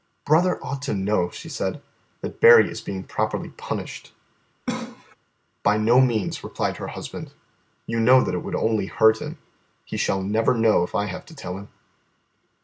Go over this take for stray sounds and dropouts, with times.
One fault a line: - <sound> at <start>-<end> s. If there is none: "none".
- cough at 4.7-5.2 s